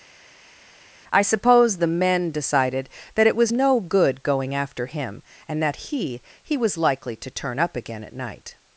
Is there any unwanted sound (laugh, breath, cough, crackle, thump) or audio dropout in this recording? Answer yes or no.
no